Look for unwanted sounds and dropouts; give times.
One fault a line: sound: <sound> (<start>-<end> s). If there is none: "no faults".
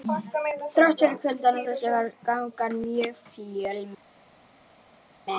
no faults